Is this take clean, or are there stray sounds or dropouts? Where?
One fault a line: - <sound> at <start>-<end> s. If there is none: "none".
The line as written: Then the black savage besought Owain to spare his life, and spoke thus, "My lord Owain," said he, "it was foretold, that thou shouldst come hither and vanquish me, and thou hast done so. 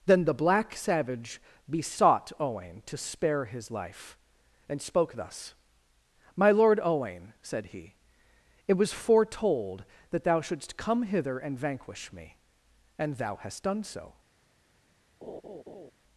- laugh at 15.2-15.9 s